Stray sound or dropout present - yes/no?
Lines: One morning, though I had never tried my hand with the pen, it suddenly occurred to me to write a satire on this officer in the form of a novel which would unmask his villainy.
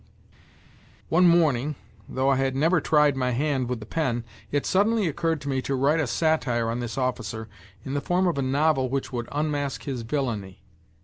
no